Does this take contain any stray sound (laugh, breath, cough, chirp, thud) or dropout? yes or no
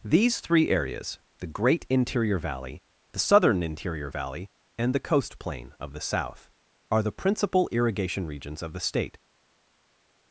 no